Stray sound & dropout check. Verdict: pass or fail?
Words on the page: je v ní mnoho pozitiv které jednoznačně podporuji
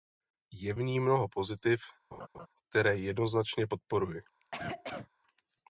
fail